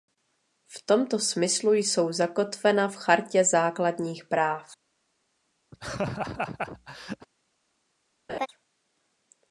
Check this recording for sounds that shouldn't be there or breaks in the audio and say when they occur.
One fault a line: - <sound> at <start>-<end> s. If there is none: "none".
- laugh at 5.7-7.3 s
- laugh at 8.3-8.5 s